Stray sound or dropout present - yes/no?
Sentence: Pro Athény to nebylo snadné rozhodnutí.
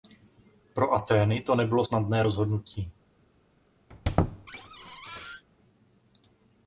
yes